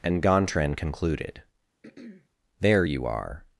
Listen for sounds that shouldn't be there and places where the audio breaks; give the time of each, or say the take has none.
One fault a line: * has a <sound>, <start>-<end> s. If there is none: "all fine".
* has a throat clearing, 1.8-2.3 s